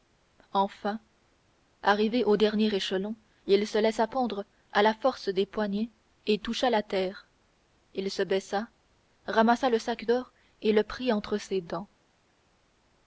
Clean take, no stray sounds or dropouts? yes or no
yes